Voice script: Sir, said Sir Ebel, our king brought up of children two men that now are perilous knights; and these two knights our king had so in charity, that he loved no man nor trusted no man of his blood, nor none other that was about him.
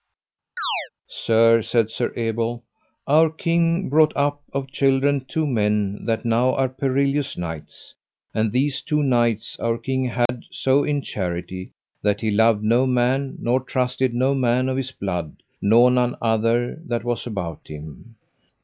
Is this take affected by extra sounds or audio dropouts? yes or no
yes